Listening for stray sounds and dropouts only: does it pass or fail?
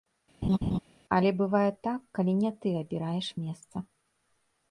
fail